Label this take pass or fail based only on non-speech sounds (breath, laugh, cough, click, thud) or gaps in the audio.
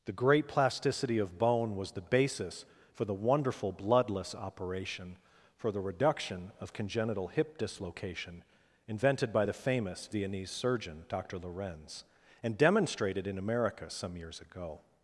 pass